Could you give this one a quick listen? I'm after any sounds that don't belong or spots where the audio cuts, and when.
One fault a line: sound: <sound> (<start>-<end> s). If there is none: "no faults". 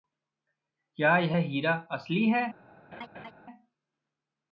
sound: laugh (2.9-3.3 s)